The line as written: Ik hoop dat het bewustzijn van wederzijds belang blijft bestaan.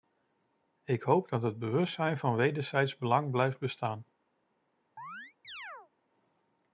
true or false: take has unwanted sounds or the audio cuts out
true